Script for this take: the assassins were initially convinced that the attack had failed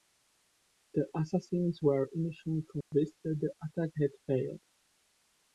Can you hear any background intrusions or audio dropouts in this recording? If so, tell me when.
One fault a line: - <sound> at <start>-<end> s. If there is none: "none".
- dropout at 2.8-2.9 s